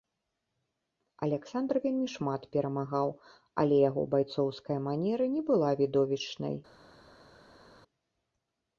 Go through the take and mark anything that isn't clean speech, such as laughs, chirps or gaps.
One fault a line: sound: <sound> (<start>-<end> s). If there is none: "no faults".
no faults